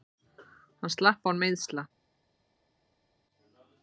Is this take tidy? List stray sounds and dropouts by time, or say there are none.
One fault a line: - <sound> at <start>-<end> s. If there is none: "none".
none